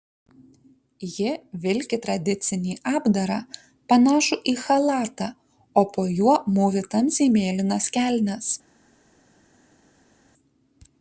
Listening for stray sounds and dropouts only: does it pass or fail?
pass